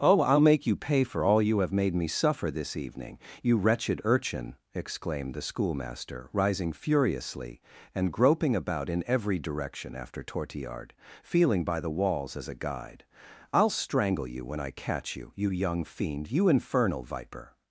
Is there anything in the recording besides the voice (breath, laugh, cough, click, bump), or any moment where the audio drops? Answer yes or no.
no